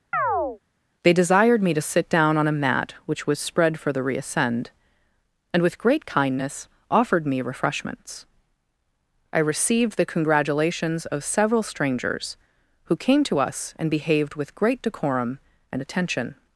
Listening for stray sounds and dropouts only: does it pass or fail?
fail